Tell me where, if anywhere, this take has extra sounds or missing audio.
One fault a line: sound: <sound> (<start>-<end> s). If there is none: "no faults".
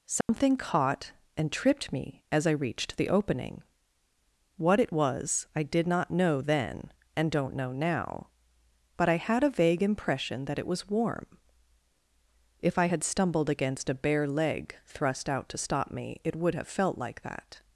sound: dropout (0.2-0.3 s)